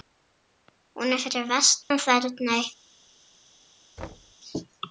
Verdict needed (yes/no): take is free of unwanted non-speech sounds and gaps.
no